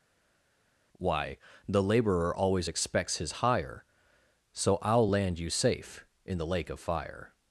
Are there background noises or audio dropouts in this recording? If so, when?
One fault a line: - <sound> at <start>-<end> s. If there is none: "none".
none